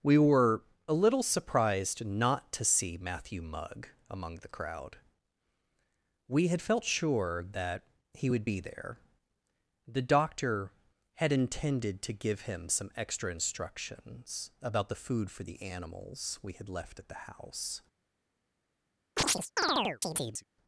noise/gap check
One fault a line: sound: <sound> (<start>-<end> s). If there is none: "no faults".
sound: chirp (19.2-20.5 s)